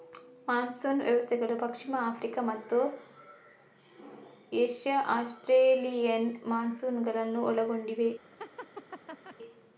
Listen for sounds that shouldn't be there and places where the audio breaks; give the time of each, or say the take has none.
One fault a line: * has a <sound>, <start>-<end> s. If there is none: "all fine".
* has a laugh, 8.4-9.4 s